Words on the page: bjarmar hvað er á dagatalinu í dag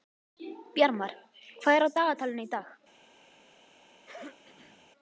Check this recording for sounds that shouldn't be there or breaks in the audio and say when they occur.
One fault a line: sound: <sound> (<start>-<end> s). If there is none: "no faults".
sound: throat clearing (4.0-4.9 s)